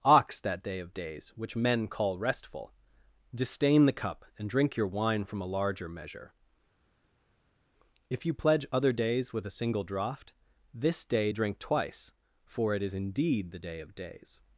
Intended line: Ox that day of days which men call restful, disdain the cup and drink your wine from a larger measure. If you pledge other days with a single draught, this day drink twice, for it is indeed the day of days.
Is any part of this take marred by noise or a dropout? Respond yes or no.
no